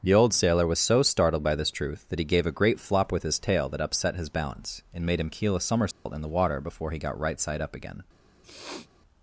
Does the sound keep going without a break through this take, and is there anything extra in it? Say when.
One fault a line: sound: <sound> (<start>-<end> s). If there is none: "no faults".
sound: dropout (5.9-6.1 s)
sound: sniff (8.4-8.9 s)